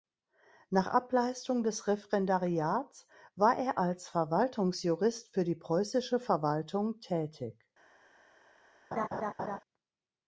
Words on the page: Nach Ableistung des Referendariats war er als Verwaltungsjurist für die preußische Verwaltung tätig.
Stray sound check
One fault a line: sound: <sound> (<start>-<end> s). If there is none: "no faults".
sound: laugh (8.9-9.6 s)